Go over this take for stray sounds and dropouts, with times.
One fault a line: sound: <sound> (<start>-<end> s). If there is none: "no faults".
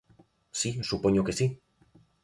no faults